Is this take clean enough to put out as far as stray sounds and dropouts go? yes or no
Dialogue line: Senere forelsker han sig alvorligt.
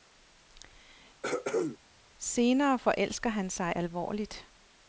no